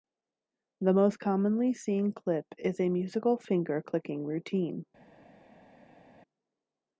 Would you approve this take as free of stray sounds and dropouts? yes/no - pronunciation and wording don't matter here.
yes